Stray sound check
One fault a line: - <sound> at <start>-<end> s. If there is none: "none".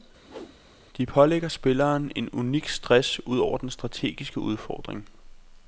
- whoosh at 0.2-0.6 s